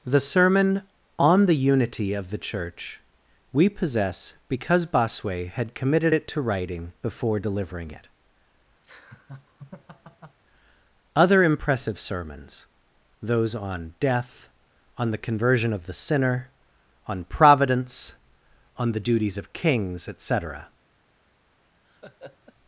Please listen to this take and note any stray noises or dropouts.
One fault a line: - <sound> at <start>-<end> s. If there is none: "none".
- laugh at 8.8-10.4 s
- laugh at 21.8-22.5 s